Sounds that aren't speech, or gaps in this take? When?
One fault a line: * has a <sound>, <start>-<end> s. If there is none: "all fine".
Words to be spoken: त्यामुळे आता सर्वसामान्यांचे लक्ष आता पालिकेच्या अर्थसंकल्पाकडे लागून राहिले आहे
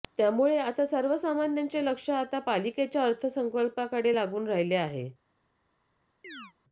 * has a chirp, 6.2-6.5 s